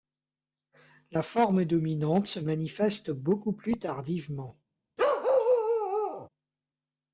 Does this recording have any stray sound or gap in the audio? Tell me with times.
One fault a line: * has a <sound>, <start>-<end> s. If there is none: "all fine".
* has a bark, 5.0-6.3 s